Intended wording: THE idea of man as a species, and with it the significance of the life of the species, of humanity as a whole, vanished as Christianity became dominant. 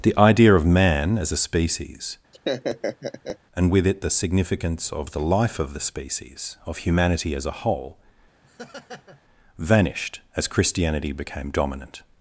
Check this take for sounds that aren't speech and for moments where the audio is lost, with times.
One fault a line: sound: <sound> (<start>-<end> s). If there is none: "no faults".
sound: laugh (2.3-3.4 s)
sound: laugh (8.4-9.2 s)